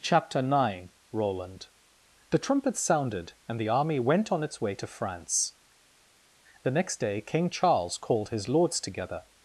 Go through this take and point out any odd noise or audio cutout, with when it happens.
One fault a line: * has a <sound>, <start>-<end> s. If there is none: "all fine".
all fine